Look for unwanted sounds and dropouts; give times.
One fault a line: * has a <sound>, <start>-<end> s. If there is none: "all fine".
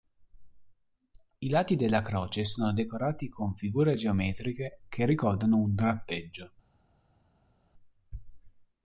all fine